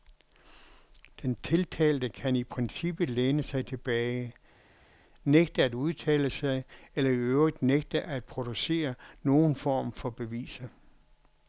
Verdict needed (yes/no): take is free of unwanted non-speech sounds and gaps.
yes